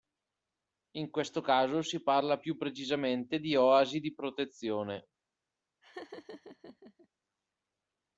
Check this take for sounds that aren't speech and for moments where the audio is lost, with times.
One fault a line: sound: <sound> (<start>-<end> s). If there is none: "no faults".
sound: laugh (5.8-7.1 s)